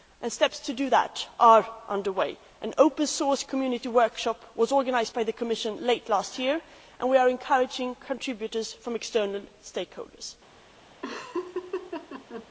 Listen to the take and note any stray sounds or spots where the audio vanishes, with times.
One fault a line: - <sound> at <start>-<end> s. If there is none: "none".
- laugh at 11.0-12.5 s